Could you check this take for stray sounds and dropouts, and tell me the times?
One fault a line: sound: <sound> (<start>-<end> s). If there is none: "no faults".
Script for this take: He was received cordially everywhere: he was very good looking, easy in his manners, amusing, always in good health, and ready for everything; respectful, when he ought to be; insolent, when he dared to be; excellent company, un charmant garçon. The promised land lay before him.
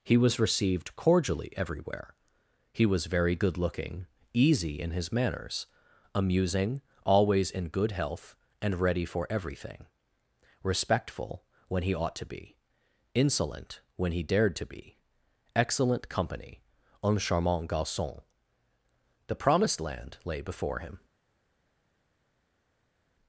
no faults